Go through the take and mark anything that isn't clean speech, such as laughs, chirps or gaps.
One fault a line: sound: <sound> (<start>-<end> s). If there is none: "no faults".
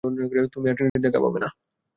sound: dropout (0.9-1.0 s)